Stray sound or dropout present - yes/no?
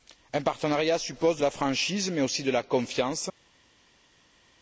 no